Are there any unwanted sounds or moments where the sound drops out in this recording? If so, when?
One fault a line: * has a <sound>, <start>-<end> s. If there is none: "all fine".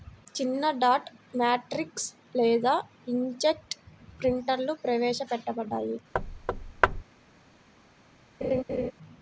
* has a thud, 6.1-7.0 s
* has a laugh, 8.4-8.9 s